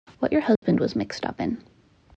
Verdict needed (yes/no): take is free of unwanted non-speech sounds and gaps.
no